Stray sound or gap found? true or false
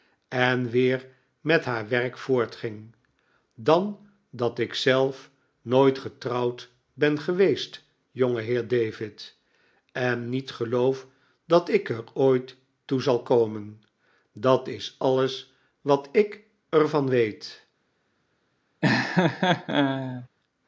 true